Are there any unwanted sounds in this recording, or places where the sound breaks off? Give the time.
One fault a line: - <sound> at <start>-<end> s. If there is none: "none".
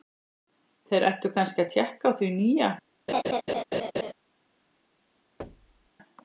- laugh at 3.1-4.1 s
- thud at 5.4-5.9 s